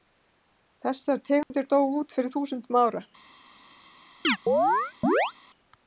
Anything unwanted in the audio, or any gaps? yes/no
yes